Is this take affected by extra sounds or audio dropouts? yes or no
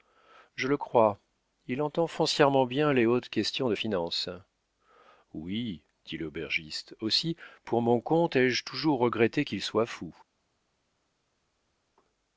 no